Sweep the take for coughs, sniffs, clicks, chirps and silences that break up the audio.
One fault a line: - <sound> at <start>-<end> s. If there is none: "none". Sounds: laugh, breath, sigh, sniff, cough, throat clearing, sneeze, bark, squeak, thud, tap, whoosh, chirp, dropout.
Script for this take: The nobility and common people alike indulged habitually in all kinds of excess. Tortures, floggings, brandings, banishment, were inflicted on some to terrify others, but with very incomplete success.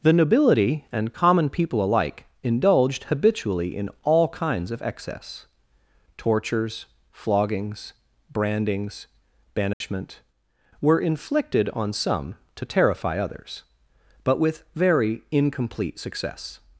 - dropout at 9.7-9.8 s